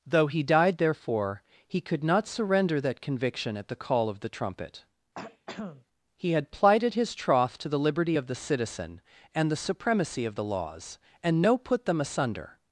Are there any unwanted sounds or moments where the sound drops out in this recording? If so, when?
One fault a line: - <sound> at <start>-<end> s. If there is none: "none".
- throat clearing at 5.2-5.9 s